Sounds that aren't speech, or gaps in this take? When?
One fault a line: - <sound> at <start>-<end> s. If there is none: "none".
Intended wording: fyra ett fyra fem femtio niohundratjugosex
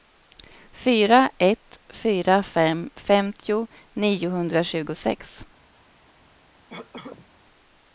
- cough at 6.7-7.3 s